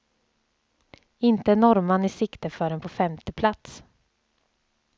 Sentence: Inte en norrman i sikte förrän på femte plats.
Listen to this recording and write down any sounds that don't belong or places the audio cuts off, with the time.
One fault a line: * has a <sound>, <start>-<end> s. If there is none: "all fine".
all fine